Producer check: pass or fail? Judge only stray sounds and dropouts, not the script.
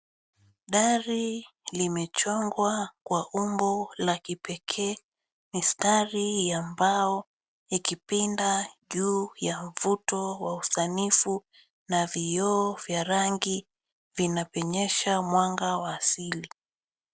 pass